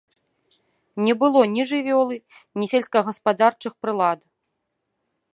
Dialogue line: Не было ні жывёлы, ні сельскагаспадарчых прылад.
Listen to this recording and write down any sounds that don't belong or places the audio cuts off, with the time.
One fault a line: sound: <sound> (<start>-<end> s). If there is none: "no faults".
no faults